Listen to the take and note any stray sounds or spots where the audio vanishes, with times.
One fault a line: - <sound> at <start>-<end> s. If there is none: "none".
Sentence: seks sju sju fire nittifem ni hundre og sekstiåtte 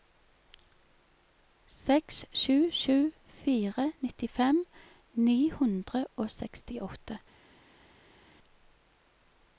none